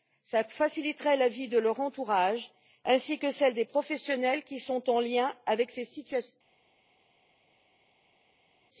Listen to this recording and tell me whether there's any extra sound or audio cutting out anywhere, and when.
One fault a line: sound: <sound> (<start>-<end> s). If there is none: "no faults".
no faults